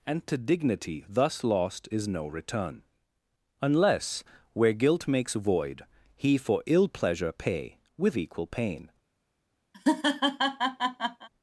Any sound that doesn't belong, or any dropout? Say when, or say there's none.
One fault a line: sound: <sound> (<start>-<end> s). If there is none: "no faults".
sound: laugh (9.7-11.3 s)